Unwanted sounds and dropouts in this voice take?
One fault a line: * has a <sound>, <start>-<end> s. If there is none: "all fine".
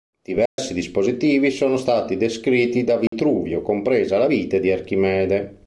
* has a dropout, 0.5-0.6 s
* has a dropout, 3.1-3.1 s